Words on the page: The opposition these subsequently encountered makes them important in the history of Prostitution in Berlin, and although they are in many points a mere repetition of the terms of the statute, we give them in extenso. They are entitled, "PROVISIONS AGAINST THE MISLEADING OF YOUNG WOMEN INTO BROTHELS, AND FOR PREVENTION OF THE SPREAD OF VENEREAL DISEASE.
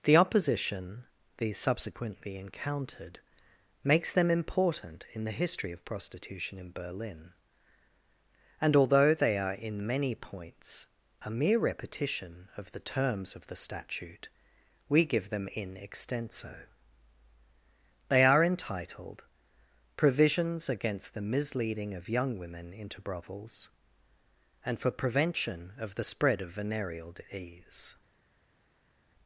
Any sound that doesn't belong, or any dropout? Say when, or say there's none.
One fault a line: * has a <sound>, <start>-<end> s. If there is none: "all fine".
all fine